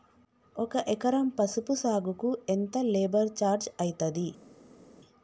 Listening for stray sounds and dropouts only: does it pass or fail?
pass